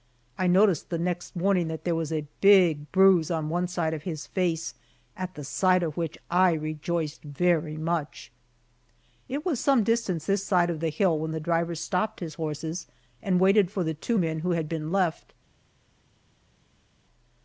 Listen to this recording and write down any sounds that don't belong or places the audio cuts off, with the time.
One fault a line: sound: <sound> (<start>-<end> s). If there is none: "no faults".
no faults